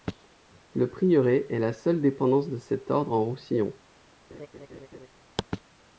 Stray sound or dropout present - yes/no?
yes